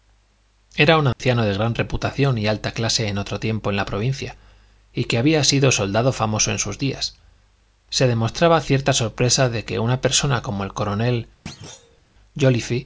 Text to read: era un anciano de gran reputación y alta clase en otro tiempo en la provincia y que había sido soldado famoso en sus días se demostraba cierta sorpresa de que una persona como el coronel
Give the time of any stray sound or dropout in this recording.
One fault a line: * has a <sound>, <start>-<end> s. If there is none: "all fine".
* has a dropout, 1.1-1.2 s
* has a thud, 11.5-12.0 s